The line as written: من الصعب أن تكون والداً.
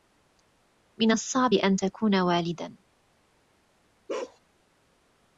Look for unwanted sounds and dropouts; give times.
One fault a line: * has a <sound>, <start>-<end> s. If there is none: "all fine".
* has a bark, 4.1-4.4 s